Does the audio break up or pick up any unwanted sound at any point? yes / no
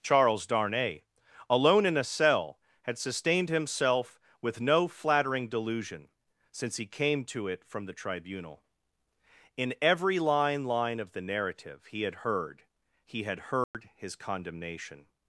yes